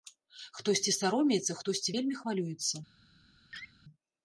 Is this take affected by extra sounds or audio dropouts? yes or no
yes